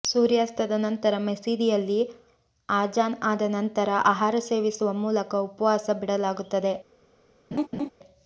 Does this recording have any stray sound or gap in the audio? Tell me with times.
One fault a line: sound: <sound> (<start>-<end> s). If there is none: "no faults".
sound: laugh (7.5-7.9 s)